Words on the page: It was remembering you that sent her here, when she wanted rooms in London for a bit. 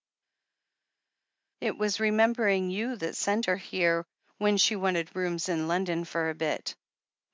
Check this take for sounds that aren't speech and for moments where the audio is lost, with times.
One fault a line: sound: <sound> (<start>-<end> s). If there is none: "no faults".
no faults